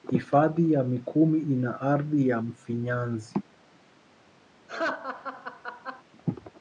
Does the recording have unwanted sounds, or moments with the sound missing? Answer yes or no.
yes